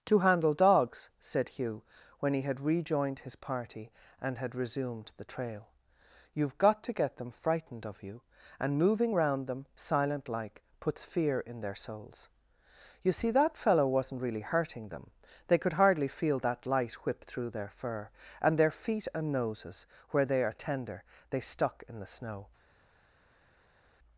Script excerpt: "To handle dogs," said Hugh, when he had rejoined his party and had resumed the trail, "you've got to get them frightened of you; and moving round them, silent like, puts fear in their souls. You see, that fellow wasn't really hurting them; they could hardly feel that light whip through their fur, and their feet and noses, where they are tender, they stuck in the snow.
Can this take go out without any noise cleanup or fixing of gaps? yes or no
yes